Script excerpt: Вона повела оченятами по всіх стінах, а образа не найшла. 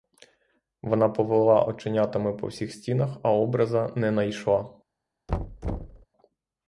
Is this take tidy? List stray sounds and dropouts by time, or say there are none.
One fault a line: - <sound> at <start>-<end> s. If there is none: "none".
- thud at 5.3-6.1 s